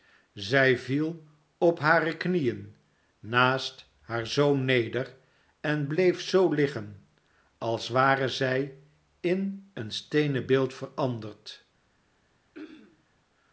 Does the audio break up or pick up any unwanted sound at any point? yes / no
yes